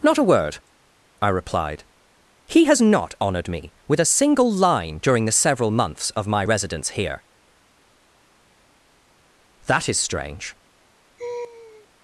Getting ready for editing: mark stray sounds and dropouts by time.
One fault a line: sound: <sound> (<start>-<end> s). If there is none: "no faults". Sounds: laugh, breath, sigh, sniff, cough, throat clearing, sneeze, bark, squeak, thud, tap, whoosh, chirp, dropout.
sound: laugh (11.2-11.9 s)